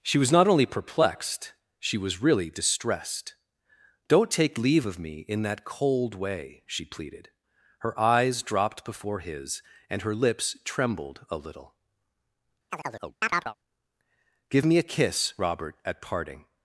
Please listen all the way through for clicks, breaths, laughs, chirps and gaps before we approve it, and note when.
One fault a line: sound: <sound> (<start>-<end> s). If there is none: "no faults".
sound: chirp (12.7-13.6 s)